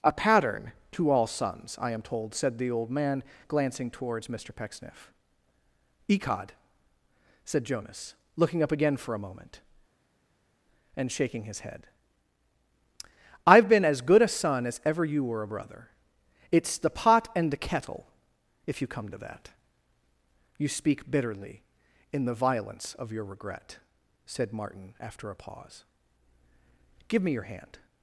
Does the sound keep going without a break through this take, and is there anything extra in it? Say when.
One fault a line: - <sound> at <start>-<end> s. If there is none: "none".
none